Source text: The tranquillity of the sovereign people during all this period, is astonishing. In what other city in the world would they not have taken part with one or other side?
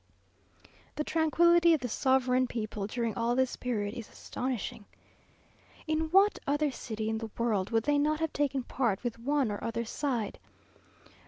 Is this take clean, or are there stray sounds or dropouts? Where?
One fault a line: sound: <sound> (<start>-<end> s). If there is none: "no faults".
no faults